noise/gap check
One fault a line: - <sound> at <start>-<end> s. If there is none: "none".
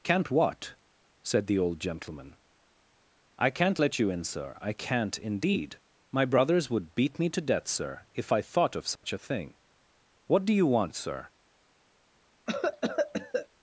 - dropout at 9.0-9.0 s
- cough at 12.5-13.5 s